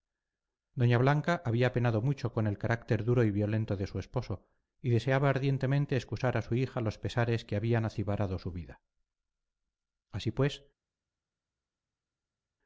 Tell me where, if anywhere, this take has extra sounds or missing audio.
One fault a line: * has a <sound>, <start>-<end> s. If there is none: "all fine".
all fine